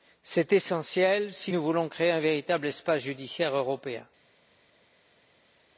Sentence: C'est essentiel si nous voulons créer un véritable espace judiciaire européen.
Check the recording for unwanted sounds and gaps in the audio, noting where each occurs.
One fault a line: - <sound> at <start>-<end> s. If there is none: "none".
none